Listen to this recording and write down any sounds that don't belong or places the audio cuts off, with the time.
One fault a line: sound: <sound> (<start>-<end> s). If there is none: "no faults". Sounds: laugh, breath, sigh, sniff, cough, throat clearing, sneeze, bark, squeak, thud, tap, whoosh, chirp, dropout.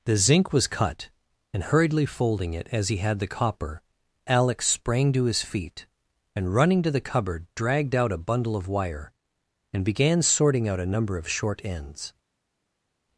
no faults